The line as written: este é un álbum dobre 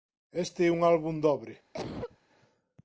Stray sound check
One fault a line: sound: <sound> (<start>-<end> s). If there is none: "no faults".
sound: cough (1.7-2.2 s)